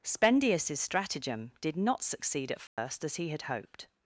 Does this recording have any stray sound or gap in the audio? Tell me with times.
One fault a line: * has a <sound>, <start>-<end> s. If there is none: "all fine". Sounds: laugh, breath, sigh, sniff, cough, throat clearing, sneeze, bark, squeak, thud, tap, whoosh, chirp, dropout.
* has a dropout, 2.7-2.8 s